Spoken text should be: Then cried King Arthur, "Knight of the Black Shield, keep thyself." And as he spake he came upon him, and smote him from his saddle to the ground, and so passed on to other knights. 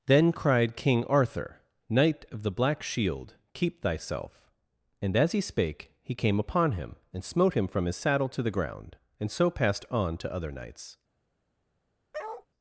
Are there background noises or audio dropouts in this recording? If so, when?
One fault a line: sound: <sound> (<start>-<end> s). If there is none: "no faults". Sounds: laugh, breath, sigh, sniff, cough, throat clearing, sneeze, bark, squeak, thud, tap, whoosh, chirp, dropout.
sound: bark (12.1-12.5 s)